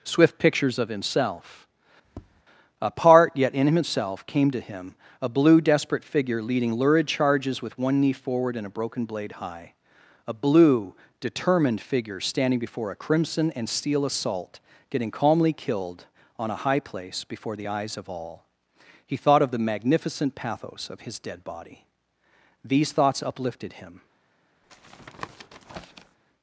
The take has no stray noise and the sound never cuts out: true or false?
false